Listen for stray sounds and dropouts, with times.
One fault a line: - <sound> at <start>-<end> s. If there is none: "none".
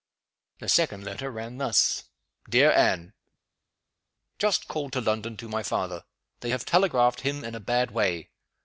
none